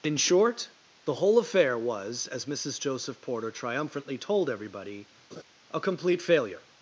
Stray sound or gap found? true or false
true